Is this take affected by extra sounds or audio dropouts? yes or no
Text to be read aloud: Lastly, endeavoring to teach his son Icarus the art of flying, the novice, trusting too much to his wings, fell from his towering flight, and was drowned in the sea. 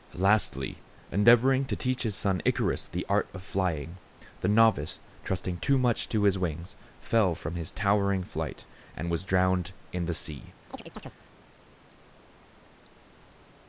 yes